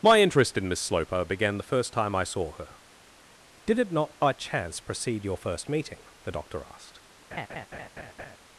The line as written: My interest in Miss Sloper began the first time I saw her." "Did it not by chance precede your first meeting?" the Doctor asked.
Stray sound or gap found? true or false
true